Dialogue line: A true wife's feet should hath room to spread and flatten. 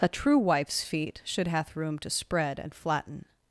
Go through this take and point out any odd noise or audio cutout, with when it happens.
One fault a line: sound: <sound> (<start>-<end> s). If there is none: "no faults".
no faults